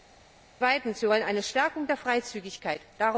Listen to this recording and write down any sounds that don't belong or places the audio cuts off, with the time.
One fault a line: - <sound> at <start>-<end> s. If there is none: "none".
none